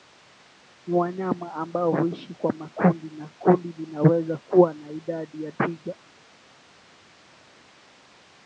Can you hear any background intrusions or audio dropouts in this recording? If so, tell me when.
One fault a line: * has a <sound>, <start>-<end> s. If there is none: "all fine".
all fine